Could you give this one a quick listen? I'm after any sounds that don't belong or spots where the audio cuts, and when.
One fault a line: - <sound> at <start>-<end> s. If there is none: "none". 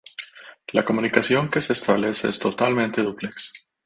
none